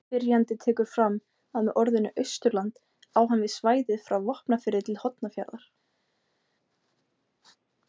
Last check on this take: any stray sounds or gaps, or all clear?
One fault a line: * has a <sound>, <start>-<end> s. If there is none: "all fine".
all fine